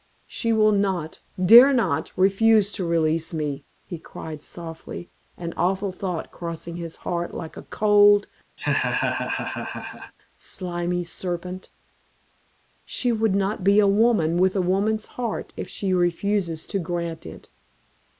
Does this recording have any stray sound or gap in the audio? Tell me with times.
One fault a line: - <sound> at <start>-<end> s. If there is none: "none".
- laugh at 8.6-10.1 s